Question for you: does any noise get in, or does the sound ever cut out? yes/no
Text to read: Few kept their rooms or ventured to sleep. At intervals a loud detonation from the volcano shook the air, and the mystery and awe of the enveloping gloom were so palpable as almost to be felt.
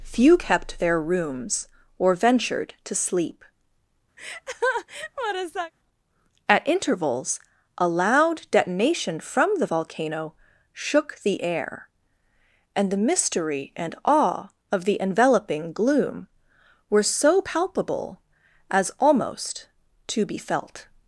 yes